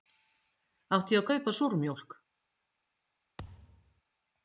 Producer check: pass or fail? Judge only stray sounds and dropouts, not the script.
fail